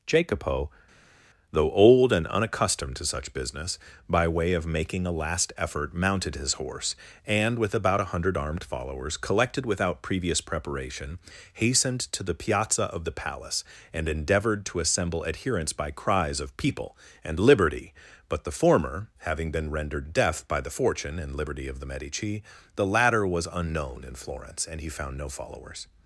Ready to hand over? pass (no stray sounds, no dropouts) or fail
pass